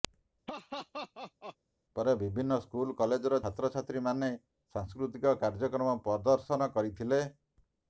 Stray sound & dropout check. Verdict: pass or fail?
fail